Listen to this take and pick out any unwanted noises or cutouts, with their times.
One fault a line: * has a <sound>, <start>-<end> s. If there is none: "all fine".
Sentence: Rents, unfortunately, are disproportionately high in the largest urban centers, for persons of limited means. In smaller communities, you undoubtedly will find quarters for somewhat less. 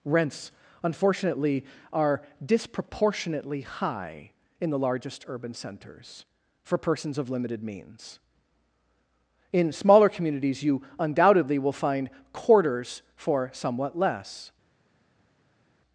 all fine